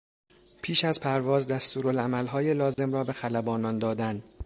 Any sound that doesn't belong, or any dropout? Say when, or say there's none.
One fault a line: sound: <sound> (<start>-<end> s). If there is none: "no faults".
sound: dropout (2.7-2.8 s)